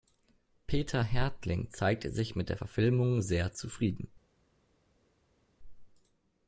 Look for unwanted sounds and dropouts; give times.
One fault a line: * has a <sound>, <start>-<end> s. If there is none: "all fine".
all fine